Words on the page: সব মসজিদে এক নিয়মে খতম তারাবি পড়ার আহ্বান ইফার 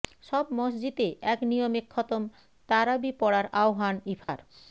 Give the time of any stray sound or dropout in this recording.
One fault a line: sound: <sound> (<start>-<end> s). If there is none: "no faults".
sound: dropout (4.2-4.3 s)